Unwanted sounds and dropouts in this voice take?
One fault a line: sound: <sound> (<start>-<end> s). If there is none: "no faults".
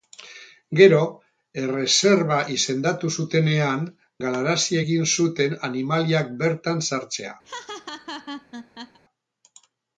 sound: laugh (7.4-9.0 s)